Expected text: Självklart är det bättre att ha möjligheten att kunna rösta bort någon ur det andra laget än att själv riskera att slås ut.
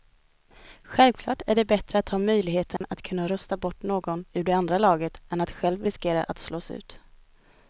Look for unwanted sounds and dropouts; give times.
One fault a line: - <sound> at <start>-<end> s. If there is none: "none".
- dropout at 2.8-2.8 s